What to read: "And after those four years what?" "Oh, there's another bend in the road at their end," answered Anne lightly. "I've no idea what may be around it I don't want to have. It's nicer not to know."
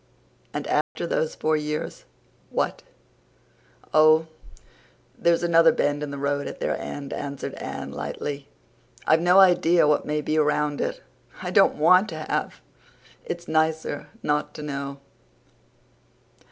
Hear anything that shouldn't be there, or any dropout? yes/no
yes